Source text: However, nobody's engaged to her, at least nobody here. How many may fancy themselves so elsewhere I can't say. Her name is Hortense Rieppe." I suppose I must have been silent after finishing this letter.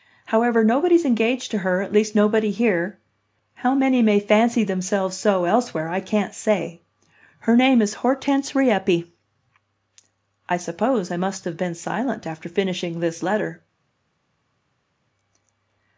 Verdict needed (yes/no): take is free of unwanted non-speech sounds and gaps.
yes